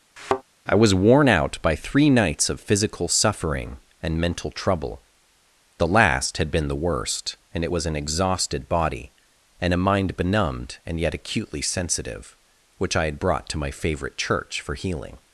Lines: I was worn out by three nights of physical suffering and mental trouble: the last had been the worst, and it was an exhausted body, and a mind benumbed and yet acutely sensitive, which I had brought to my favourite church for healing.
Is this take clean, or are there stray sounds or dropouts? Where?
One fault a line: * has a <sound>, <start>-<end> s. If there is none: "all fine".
* has a thud, 0.2-0.4 s